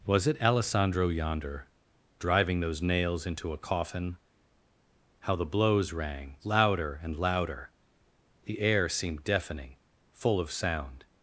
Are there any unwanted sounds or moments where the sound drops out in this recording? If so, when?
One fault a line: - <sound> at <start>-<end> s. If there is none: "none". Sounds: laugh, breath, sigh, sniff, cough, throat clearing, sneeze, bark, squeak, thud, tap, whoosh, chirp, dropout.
none